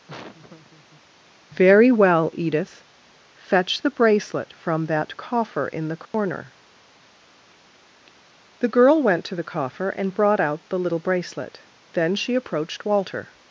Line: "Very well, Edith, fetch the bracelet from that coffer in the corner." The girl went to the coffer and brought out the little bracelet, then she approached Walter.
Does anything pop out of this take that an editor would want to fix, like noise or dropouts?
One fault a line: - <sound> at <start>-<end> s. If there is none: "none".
- laugh at 0.1-1.0 s
- dropout at 6.1-6.1 s